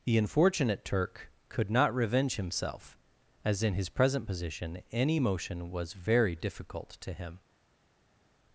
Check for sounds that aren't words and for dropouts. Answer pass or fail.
pass